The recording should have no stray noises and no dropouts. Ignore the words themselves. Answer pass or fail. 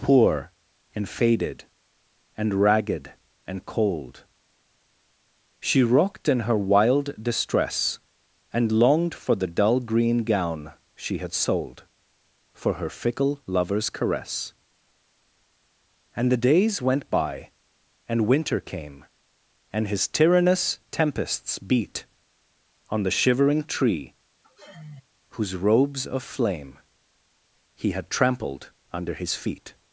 fail